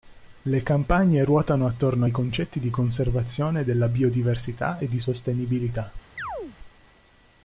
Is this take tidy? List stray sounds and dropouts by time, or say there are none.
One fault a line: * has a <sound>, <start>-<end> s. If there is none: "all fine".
* has a chirp, 6.2-6.6 s